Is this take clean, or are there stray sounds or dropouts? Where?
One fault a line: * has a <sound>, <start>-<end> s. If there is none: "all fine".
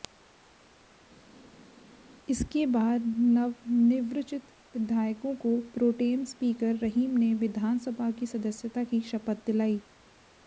all fine